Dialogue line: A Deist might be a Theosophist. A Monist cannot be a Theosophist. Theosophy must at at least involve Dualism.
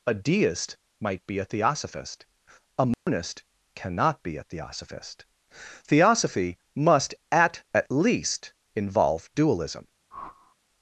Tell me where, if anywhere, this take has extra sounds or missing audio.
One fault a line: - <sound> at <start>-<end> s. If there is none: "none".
- dropout at 2.9-3.1 s
- whoosh at 10.1-10.6 s